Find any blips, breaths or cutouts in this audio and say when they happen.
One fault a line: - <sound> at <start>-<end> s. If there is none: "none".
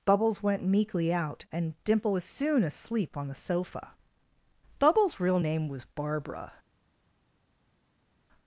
none